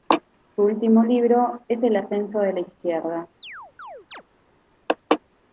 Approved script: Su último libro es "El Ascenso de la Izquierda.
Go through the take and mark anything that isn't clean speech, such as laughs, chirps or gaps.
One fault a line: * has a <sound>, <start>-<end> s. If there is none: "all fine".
* has a chirp, 3.4-4.2 s